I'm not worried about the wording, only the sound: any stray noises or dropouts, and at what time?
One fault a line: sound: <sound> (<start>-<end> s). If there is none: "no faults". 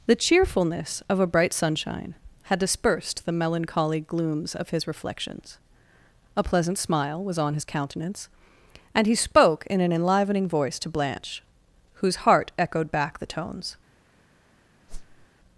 sound: whoosh (14.9-15.3 s)